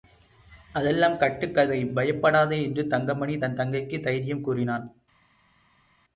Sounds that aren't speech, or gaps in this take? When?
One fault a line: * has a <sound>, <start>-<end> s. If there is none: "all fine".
all fine